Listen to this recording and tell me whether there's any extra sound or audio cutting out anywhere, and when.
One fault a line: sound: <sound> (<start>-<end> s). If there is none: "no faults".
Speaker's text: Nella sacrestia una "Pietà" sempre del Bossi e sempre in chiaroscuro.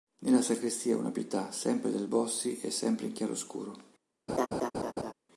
sound: laugh (4.3-5.1 s)